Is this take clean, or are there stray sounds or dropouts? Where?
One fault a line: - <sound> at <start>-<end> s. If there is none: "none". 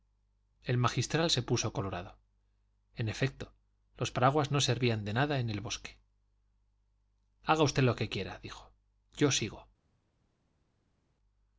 none